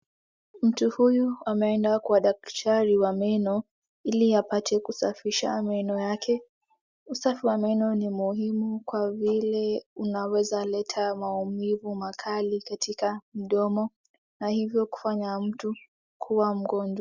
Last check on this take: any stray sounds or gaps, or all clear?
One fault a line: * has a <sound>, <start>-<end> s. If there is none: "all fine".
all fine